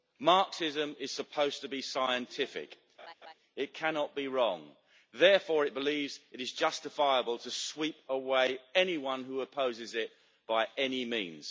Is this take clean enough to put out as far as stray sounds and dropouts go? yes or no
no